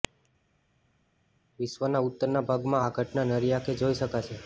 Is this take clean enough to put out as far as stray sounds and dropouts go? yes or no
yes